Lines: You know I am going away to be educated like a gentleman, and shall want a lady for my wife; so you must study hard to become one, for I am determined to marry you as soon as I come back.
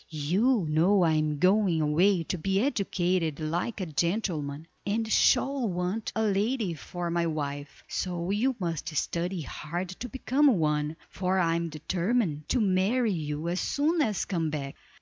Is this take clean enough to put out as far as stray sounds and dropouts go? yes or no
yes